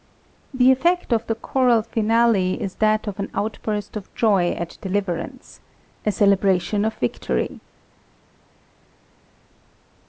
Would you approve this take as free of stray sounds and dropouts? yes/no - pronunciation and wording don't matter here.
yes